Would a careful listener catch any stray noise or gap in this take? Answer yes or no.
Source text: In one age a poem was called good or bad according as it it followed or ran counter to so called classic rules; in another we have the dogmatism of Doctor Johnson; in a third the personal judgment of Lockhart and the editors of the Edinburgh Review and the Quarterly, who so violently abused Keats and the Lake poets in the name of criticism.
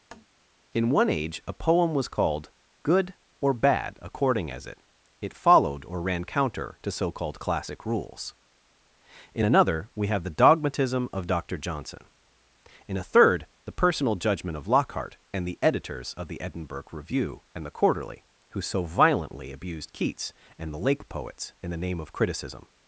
yes